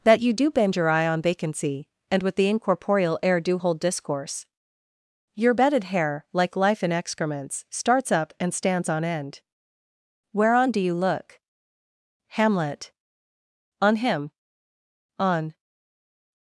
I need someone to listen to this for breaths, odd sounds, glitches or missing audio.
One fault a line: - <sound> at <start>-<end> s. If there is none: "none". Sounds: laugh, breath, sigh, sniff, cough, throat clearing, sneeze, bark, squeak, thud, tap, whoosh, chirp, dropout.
none